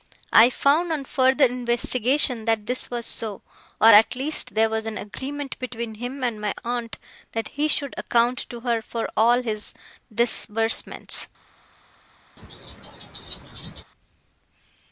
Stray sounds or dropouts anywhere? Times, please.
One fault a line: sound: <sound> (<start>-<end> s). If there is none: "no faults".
sound: laugh (12.4-13.8 s)